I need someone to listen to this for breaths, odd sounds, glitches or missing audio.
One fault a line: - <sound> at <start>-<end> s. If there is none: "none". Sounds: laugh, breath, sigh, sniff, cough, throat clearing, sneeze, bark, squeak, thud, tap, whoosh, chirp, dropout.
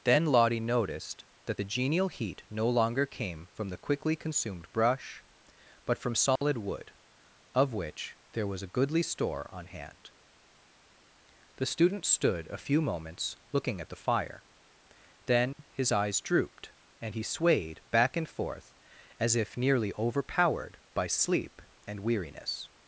- dropout at 6.4-6.4 s
- dropout at 15.5-15.6 s